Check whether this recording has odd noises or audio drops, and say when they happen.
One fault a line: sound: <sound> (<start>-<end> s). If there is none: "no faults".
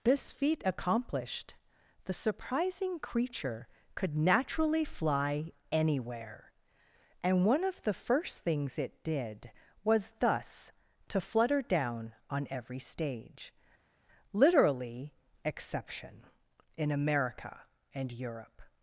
no faults